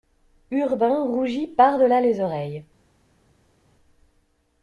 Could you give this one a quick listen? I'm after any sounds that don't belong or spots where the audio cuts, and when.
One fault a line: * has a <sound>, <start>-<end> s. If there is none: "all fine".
all fine